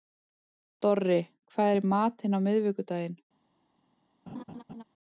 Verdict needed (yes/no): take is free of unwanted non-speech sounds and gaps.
no